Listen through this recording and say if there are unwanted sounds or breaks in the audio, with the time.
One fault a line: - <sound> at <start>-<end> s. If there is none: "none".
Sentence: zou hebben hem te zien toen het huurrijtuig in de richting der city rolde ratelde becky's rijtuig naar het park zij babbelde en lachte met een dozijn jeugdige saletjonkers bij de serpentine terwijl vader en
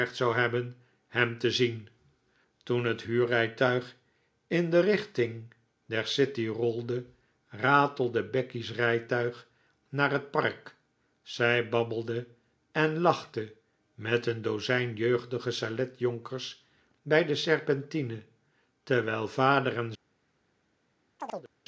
- chirp at 21.2-21.5 s